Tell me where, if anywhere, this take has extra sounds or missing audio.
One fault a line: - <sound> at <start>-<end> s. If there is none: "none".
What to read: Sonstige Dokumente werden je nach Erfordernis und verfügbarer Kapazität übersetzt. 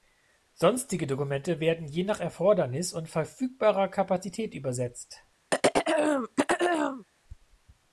- throat clearing at 5.5-7.0 s